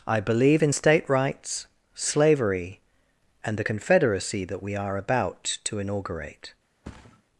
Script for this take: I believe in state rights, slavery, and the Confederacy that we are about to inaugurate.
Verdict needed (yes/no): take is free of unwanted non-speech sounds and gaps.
no